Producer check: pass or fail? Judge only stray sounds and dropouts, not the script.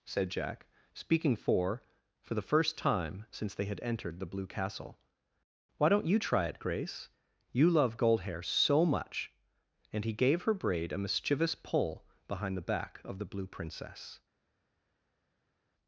pass